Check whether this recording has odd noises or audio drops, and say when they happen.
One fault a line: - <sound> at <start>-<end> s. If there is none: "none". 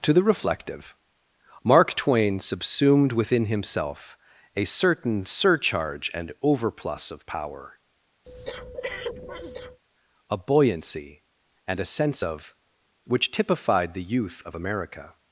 - breath at 8.2-9.8 s